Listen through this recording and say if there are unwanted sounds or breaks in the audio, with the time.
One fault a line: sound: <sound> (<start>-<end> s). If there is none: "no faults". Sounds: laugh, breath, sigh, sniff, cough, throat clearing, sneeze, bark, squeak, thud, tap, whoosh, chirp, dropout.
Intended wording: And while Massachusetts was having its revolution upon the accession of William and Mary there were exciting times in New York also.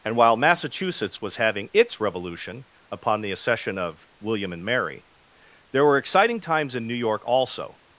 no faults